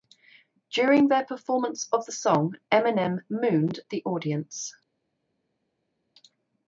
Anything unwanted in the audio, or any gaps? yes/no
no